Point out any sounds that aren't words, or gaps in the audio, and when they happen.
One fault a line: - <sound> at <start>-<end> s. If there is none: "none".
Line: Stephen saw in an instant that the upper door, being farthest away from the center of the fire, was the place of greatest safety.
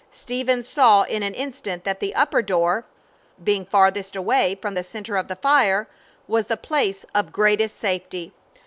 none